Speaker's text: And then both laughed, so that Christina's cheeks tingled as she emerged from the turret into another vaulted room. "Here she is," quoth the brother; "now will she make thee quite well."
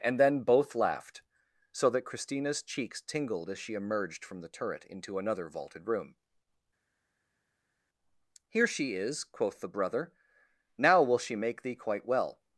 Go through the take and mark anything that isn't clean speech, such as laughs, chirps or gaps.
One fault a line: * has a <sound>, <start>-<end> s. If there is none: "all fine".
all fine